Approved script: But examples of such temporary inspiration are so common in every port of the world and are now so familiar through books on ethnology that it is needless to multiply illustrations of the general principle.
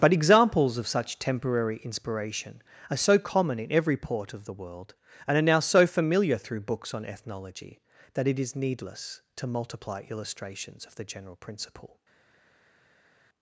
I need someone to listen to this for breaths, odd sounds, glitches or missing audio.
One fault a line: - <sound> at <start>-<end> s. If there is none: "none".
none